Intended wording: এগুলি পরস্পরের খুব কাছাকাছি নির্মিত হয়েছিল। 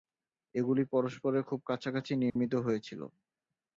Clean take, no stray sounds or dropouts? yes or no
no